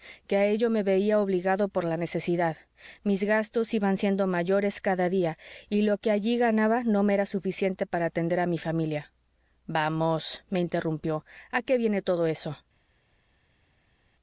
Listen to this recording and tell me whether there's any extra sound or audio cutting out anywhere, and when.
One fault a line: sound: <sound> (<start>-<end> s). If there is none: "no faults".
no faults